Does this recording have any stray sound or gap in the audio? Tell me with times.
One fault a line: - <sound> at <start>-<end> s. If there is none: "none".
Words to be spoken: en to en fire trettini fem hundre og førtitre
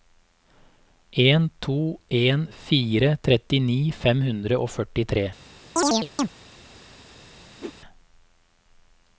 - chirp at 5.8-6.3 s
- whoosh at 7.6-7.7 s